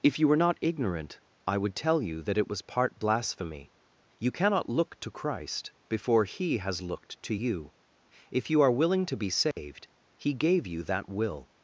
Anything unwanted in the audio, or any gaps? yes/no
yes